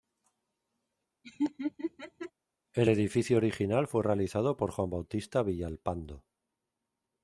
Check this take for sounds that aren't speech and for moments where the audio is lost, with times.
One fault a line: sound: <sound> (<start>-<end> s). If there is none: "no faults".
sound: laugh (1.2-2.3 s)